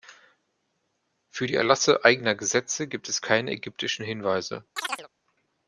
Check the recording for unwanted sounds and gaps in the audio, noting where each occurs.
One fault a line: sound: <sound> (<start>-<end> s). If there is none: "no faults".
sound: chirp (4.8-5.1 s)